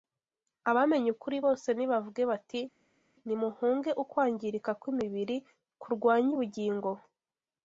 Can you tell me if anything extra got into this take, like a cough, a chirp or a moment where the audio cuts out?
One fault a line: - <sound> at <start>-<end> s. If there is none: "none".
none